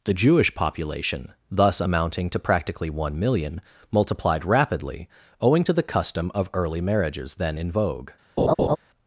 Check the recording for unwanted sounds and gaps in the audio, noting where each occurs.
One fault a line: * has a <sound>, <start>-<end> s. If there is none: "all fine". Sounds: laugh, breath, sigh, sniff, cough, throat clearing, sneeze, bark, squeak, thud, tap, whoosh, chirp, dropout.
* has a laugh, 8.4-8.8 s